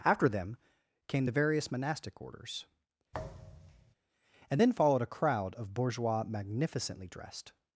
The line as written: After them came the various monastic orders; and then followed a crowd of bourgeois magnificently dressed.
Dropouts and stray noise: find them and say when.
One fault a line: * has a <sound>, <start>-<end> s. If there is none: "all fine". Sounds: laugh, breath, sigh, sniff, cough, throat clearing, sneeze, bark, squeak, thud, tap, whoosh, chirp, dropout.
* has a thud, 3.1-3.9 s